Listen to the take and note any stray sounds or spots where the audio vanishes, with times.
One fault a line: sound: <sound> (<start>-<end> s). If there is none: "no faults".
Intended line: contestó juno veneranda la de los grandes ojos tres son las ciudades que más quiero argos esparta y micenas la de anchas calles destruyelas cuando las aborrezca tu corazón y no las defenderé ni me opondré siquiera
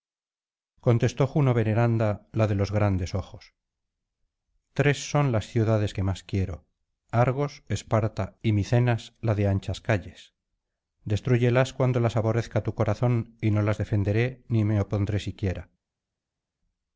no faults